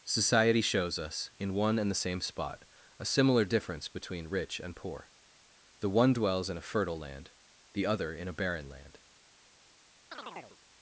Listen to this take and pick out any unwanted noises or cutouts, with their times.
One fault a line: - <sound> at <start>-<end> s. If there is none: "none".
- chirp at 10.1-10.6 s